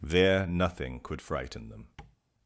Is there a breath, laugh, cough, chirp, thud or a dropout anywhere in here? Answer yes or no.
yes